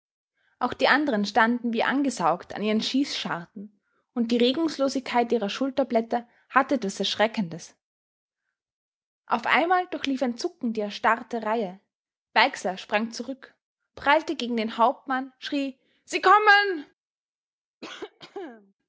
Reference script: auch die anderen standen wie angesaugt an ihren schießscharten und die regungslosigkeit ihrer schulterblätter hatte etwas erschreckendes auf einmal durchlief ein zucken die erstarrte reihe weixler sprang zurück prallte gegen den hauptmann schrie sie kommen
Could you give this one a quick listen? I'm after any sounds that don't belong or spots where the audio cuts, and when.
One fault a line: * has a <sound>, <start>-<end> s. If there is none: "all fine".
* has a cough, 17.8-18.7 s